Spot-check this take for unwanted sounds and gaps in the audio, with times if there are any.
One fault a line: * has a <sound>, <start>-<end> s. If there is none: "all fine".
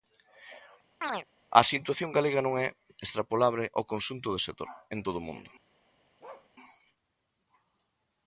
* has a chirp, 1.0-1.3 s
* has a bark, 6.2-6.5 s